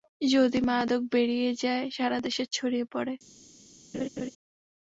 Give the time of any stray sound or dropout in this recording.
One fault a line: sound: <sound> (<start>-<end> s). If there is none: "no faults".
sound: laugh (3.9-4.3 s)